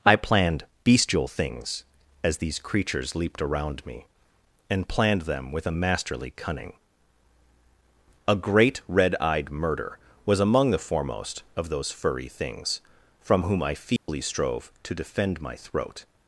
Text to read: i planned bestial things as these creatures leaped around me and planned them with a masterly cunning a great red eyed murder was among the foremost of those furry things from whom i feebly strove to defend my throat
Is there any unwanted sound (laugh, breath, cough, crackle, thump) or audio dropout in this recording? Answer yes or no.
yes